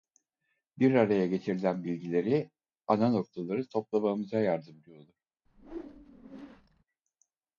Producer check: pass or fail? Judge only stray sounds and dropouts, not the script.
fail